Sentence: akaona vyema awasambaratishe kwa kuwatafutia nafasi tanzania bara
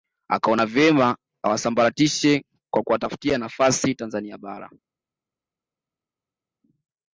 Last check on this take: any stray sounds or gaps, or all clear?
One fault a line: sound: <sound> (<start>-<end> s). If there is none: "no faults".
no faults